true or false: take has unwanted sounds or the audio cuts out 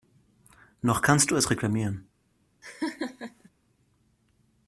true